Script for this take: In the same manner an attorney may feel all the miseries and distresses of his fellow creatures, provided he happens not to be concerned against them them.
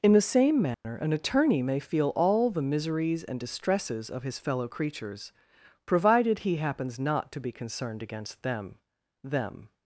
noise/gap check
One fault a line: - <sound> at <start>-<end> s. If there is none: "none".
- dropout at 0.7-0.8 s